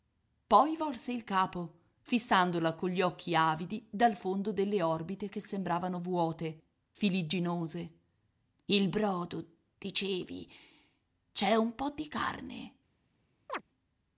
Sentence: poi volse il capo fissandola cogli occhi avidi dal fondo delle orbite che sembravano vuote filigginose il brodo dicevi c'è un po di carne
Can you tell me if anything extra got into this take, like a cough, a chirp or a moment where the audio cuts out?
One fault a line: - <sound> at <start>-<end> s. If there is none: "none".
- chirp at 13.5-13.6 s